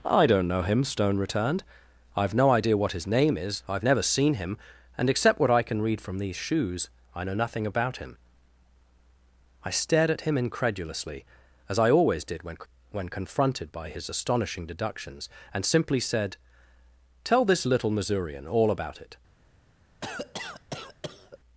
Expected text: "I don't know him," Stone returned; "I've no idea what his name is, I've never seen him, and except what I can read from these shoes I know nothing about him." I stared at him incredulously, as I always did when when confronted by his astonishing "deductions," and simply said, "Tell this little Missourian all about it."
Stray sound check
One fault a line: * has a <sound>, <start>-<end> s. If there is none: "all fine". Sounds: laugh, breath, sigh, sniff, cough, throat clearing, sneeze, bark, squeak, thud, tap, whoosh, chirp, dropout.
* has a cough, 20.0-21.4 s